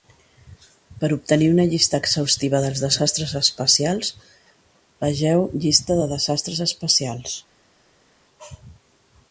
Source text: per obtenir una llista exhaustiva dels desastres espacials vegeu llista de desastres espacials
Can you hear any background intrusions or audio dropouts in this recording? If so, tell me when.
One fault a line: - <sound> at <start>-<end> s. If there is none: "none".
none